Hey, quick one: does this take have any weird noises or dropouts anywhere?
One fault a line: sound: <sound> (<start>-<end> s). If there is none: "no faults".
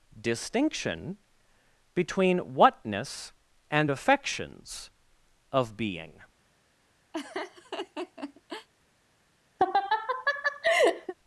sound: laugh (7.1-8.7 s)
sound: laugh (9.6-11.1 s)